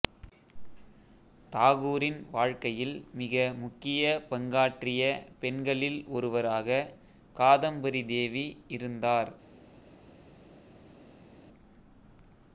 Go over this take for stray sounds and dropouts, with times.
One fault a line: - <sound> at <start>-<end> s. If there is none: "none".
none